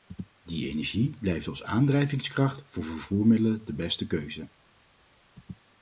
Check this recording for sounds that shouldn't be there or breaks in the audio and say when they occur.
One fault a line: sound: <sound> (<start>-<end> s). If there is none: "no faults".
no faults